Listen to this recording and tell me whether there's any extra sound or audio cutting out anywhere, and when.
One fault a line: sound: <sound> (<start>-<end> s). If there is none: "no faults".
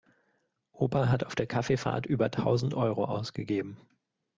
no faults